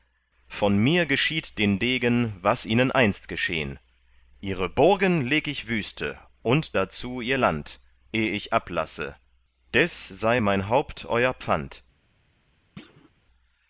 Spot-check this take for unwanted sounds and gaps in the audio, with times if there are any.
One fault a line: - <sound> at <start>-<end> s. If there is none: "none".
- thud at 12.8-13.1 s